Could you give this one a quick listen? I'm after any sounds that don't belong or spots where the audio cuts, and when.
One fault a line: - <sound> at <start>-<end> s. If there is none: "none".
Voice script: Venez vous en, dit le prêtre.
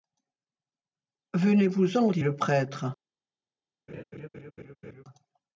- laugh at 3.9-5.0 s